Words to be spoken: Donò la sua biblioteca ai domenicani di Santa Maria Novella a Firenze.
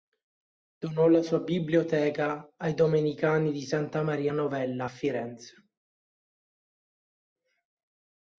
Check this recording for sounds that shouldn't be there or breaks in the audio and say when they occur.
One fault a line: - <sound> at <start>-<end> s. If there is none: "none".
none